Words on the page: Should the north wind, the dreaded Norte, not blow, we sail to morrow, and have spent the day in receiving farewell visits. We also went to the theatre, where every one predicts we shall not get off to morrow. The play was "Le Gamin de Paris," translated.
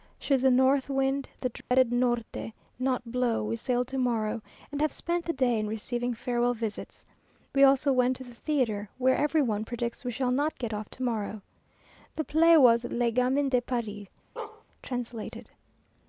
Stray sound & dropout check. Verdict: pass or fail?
fail